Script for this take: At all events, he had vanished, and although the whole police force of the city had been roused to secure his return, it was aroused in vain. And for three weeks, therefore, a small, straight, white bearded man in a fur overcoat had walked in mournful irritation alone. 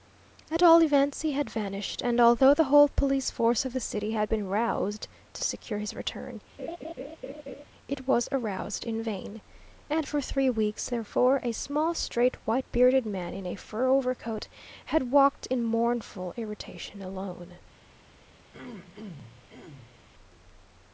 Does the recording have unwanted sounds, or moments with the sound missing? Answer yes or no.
yes